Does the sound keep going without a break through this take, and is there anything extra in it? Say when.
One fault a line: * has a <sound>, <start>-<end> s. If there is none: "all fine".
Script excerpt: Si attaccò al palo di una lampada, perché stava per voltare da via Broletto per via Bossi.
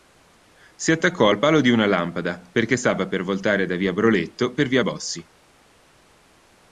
all fine